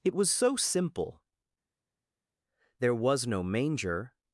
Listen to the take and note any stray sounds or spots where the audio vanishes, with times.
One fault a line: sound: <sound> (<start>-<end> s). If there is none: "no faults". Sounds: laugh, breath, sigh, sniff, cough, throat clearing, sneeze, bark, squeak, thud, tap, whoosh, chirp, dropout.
no faults